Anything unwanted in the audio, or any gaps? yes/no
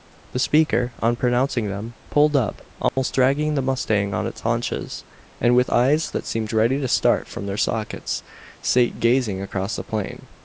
yes